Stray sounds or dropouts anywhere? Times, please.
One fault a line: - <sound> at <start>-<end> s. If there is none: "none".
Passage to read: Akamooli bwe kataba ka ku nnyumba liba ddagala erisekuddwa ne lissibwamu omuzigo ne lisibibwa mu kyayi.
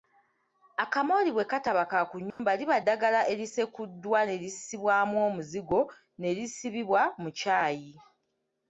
- dropout at 2.3-2.4 s